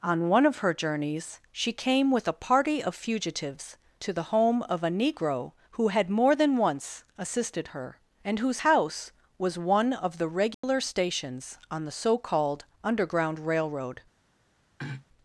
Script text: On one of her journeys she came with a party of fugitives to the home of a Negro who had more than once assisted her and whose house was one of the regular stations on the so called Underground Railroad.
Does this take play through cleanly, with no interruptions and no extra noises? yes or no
no